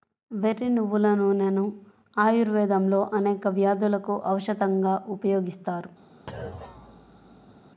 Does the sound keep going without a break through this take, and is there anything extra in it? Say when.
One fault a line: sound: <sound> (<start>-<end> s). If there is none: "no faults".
sound: thud (6.3-7.6 s)